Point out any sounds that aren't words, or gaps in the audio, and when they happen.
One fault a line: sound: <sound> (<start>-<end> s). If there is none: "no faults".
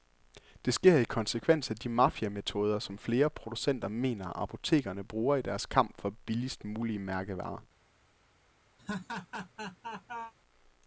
sound: laugh (8.8-10.3 s)